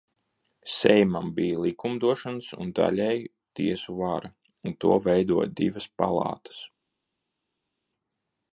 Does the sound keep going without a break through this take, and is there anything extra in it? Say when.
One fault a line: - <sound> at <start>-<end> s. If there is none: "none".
none